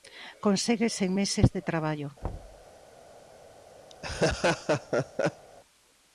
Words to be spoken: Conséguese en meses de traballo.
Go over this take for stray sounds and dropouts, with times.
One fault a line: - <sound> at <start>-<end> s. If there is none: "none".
- thud at 2.2-2.7 s
- laugh at 3.9-5.5 s